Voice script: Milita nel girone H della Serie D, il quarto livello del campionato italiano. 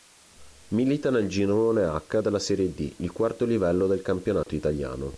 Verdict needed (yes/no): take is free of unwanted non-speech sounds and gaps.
no